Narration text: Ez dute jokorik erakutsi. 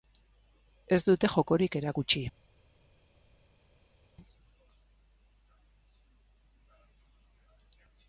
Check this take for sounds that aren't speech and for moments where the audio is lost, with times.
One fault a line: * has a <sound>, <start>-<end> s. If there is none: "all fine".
all fine